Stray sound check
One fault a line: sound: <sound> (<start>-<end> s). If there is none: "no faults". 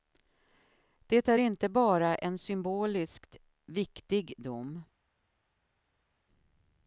no faults